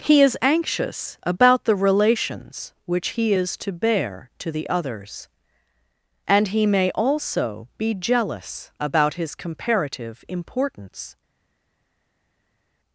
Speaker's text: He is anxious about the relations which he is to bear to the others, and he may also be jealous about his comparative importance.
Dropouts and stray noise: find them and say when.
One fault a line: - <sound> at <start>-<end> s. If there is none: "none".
none